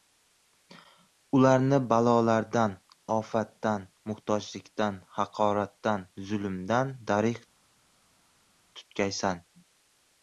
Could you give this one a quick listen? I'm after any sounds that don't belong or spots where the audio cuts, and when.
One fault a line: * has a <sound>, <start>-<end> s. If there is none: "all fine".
all fine